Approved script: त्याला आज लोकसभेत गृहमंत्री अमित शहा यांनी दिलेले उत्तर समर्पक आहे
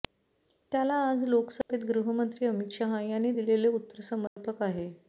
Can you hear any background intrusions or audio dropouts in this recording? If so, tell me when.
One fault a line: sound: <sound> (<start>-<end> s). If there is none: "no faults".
sound: dropout (1.6-1.7 s)
sound: dropout (4.3-4.4 s)